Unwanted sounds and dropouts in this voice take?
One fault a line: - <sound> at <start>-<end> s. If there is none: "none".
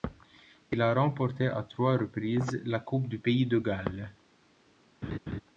- laugh at 5.0-5.4 s